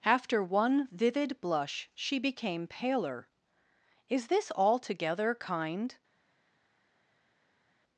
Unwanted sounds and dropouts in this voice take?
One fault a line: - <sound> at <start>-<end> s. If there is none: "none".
none